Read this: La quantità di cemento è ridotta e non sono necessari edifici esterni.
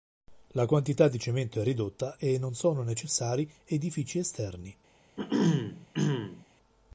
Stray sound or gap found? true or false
true